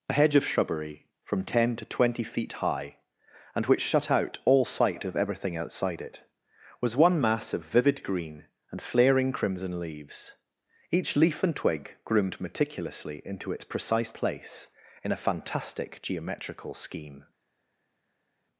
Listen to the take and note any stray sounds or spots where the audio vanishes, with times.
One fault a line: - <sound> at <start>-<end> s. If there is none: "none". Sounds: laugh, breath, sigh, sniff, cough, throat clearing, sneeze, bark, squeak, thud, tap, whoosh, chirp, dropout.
none